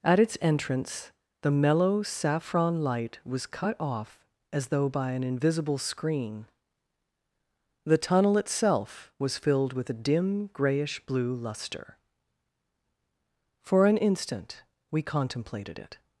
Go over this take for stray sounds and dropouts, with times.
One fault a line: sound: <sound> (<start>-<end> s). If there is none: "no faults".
no faults